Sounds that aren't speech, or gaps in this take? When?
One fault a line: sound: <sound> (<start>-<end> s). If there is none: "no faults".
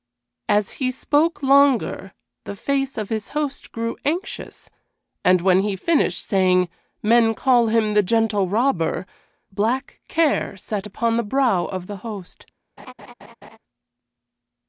sound: laugh (12.8-13.6 s)